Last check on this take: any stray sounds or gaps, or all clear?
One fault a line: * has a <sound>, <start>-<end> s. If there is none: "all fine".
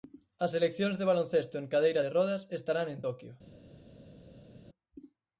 all fine